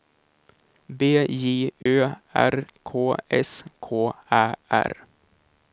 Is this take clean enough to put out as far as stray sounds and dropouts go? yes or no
no